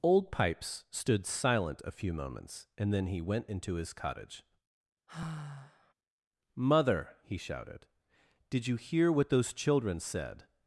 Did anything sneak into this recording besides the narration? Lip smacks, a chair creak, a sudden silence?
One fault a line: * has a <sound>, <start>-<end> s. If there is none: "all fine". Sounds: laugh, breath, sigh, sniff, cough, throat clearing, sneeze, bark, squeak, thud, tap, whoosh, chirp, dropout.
* has a sigh, 5.1-5.9 s